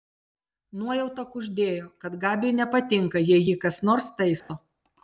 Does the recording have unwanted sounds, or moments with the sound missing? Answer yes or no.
yes